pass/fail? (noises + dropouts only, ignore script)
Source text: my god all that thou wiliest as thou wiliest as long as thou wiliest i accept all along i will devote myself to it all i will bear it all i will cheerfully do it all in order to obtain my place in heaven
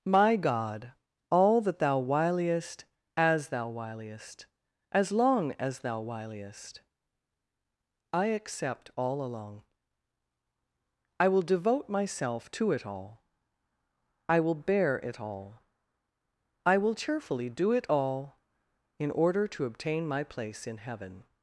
pass